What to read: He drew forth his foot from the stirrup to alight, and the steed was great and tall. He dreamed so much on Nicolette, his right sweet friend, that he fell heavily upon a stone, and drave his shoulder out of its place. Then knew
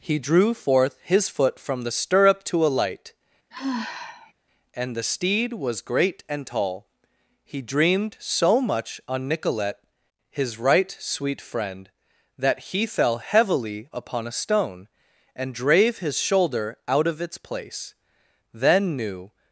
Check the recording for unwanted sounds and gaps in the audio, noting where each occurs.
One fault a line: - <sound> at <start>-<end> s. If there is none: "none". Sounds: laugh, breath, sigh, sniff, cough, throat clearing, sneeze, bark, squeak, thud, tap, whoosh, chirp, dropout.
- sigh at 3.5-4.3 s